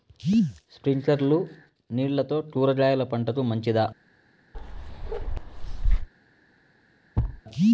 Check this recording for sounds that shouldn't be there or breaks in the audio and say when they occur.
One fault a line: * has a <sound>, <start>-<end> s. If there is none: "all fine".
* has a bark, 4.5-6.1 s
* has a thud, 7.2-7.4 s